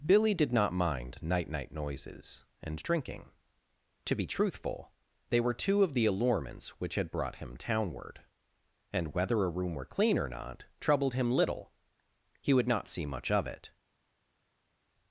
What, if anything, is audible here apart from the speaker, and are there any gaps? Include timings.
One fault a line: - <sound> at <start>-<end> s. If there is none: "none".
none